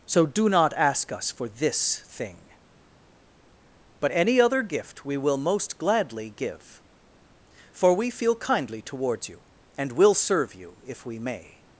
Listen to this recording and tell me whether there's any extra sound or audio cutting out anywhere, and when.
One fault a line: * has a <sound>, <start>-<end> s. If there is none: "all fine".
all fine